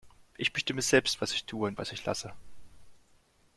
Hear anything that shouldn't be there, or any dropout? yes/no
no